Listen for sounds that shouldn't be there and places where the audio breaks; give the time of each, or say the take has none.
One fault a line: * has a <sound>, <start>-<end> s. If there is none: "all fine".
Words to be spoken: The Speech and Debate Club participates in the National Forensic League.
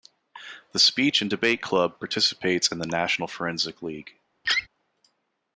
* has a laugh, 4.4-4.7 s